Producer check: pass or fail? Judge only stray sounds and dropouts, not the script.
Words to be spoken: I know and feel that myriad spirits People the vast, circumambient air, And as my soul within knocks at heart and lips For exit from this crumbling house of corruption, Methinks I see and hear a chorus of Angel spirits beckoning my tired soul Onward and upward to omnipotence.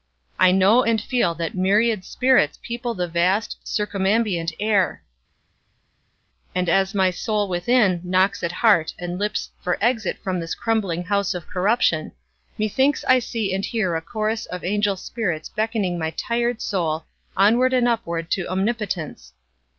pass